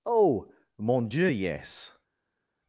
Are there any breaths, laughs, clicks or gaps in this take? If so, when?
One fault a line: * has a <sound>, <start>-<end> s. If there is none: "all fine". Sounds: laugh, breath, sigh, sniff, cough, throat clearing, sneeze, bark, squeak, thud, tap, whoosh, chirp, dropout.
all fine